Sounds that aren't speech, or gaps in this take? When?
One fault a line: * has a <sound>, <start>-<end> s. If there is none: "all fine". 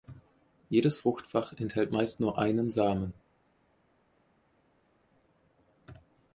all fine